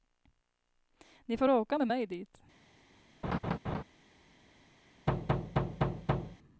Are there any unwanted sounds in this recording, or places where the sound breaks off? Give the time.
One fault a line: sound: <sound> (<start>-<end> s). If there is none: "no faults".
sound: laugh (3.2-3.8 s)
sound: thud (5.1-6.4 s)